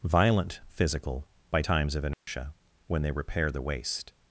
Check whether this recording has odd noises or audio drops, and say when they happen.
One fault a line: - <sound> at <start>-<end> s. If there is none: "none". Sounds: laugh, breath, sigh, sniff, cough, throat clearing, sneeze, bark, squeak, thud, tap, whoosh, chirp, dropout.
- dropout at 2.1-2.3 s